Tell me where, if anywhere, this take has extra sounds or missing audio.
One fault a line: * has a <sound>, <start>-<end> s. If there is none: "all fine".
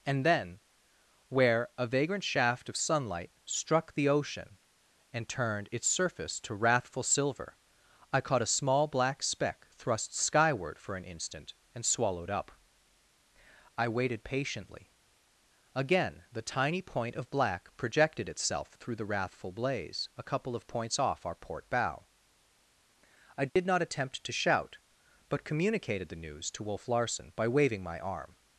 * has a dropout, 23.5-23.6 s